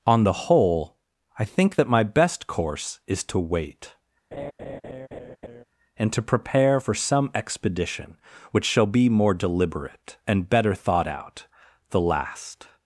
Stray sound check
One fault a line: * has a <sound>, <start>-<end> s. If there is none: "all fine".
* has a laugh, 4.3-5.6 s